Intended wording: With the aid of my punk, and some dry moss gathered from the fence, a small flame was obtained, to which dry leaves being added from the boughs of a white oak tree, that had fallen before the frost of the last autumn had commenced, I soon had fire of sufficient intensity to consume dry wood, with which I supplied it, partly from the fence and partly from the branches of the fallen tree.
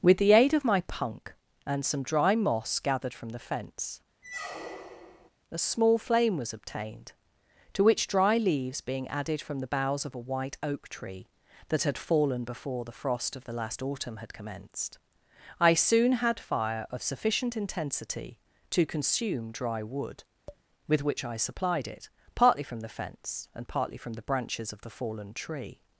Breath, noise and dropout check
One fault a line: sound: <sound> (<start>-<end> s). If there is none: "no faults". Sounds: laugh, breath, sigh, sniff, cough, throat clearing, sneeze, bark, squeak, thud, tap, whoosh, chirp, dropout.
sound: squeak (4.2-5.3 s)
sound: tap (20.5-20.6 s)